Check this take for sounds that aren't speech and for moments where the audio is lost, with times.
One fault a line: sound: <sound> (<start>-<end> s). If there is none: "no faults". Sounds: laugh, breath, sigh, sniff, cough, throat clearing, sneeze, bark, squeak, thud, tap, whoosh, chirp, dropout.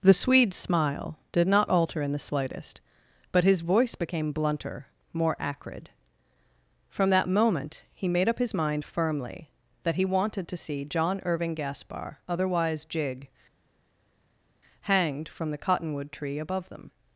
no faults